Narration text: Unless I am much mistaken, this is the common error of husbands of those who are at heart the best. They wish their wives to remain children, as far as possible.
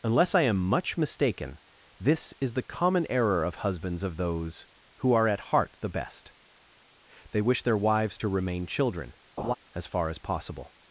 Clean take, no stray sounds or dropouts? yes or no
no